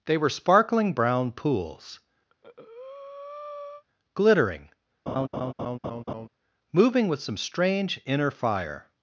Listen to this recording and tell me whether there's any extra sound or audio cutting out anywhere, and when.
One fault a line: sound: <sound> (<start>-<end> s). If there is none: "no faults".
sound: breath (2.3-3.8 s)
sound: laugh (5.1-6.3 s)